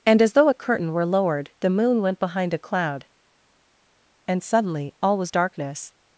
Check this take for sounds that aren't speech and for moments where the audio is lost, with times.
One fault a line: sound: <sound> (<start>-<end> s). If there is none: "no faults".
no faults